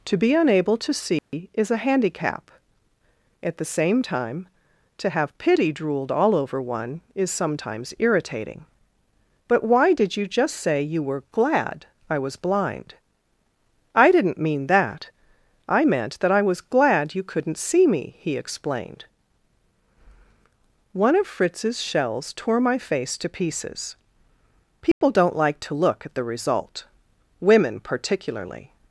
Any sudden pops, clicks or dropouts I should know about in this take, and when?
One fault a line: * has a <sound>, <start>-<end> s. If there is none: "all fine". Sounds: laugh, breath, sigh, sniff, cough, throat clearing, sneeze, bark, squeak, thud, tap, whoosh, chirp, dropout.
* has a dropout, 1.2-1.3 s
* has a dropout, 24.9-25.0 s